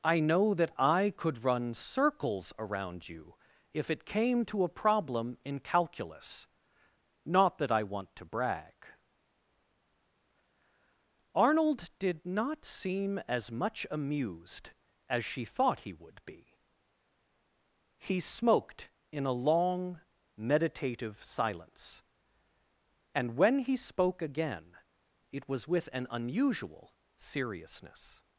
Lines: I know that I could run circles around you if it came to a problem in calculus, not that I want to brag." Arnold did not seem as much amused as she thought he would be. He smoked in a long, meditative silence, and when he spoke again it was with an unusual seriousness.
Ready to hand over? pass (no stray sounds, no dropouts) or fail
pass